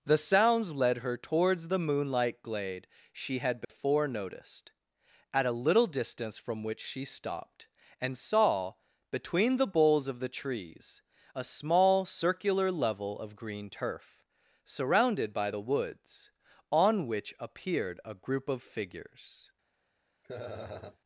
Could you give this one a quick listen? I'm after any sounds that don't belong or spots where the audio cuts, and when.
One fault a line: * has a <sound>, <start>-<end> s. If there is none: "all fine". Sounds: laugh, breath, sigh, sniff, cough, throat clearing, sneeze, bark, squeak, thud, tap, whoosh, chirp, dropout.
* has a dropout, 3.6-3.7 s
* has a laugh, 20.2-21.0 s